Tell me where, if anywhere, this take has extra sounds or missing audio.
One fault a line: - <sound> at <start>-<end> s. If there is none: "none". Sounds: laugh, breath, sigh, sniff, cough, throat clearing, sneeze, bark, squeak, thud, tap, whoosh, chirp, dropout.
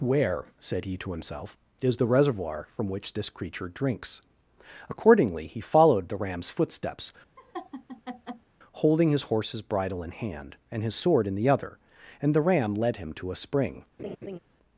- laugh at 7.4-8.5 s
- laugh at 14.0-14.4 s